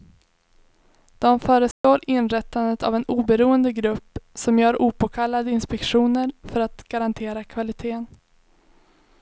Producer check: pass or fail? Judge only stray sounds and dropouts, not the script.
fail